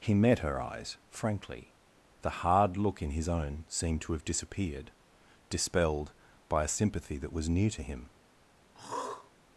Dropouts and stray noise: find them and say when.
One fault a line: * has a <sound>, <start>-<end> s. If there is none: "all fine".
* has a throat clearing, 8.7-9.3 s